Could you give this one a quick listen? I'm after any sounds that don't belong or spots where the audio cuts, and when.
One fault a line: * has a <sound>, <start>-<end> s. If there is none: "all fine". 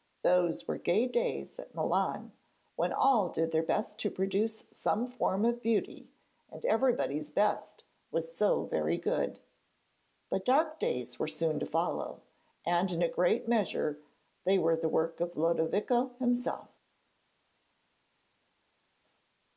all fine